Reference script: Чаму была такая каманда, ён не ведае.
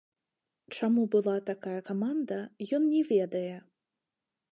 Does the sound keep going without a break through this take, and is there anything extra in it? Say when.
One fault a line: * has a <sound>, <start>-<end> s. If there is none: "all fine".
all fine